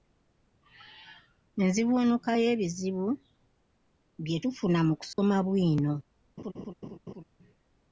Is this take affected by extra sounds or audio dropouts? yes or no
yes